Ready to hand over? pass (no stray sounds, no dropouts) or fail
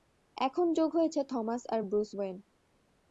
pass